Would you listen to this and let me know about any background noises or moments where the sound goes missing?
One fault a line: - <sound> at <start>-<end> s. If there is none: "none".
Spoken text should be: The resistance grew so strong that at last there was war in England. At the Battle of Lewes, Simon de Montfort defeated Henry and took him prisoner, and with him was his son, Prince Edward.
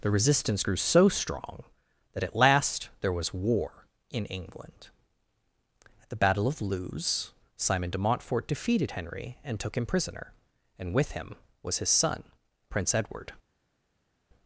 none